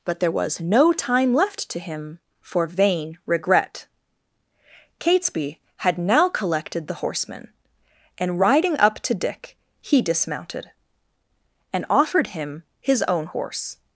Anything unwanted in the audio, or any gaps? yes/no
no